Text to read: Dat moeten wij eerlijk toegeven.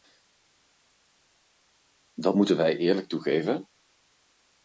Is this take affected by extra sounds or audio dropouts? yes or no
no